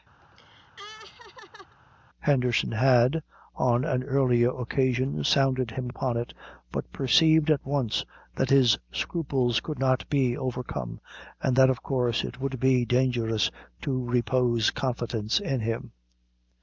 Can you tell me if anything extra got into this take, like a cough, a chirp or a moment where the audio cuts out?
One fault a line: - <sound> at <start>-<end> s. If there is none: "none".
- laugh at 0.2-1.8 s